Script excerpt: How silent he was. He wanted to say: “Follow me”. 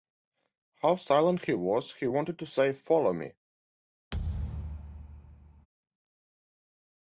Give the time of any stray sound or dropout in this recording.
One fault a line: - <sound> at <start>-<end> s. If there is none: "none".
- thud at 4.1-5.7 s